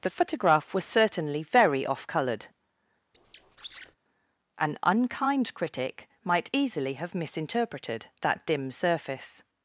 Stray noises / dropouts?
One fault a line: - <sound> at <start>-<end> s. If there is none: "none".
- squeak at 3.1-4.0 s